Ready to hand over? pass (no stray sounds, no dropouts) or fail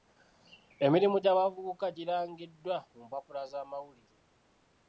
pass